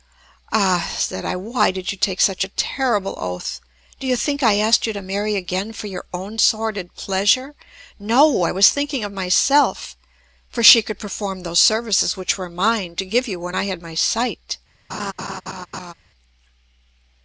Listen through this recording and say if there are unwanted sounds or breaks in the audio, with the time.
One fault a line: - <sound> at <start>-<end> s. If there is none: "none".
- laugh at 14.9-15.9 s